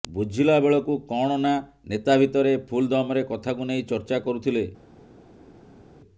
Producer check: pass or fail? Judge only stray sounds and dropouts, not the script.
pass